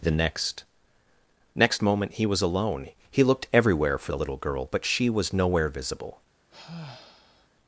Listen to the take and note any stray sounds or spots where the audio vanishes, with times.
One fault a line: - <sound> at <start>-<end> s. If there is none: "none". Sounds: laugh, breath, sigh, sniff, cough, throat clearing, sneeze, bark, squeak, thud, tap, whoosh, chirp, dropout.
- sigh at 6.5-7.5 s